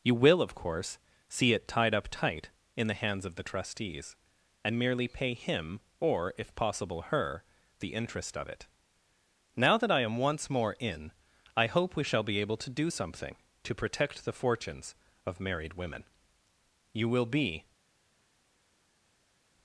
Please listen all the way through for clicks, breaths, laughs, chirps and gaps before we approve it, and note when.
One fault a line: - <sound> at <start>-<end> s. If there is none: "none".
none